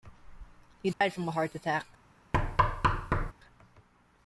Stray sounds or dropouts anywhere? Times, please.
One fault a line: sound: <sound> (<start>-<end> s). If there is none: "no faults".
sound: dropout (0.9-1.0 s)
sound: thud (2.3-3.3 s)